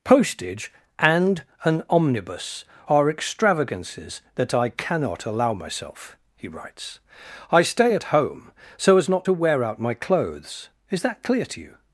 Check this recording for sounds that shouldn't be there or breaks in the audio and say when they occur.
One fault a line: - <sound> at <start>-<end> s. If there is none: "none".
none